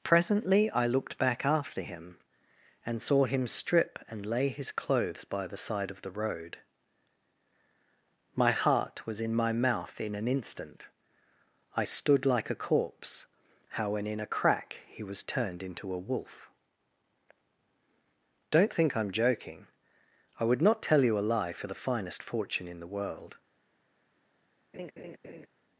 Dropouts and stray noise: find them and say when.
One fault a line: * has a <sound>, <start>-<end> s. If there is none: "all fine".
* has a laugh, 24.7-25.5 s